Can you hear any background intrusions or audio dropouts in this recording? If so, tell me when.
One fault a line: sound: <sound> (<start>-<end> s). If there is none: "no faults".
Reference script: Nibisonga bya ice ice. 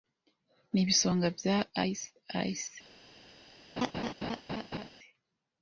sound: laugh (3.8-4.9 s)